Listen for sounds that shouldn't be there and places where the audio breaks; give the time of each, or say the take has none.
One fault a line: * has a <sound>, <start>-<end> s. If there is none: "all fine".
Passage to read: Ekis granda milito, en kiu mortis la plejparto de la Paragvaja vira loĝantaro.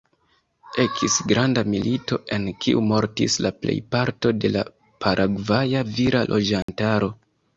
* has a dropout, 6.6-6.7 s